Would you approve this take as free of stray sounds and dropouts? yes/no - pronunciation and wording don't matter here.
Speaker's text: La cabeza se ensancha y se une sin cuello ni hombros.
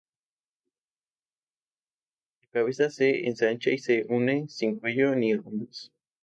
yes